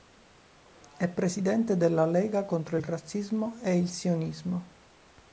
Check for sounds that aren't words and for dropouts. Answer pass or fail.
pass